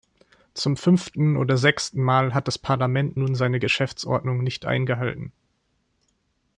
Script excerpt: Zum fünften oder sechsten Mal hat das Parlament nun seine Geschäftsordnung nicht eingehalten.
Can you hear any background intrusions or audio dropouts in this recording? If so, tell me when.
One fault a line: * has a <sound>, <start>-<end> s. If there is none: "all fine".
all fine